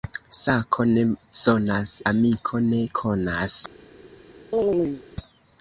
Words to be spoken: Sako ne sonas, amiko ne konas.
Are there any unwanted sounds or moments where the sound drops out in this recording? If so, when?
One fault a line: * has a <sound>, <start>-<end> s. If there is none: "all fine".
* has a chirp, 4.5-5.0 s